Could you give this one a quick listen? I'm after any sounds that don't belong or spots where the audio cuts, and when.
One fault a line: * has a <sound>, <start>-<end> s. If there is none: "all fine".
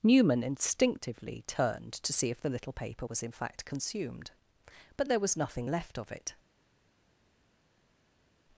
all fine